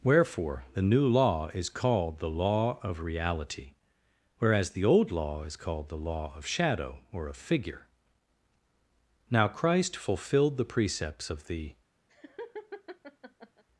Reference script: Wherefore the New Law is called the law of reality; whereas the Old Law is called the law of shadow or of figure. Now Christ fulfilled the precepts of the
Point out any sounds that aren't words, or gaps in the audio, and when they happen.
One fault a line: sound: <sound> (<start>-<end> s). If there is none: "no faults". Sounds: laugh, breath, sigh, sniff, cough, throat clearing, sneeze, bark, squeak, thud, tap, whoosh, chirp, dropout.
sound: laugh (12.1-13.6 s)